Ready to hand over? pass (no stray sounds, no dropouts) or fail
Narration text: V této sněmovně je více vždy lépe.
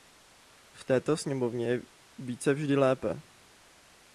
pass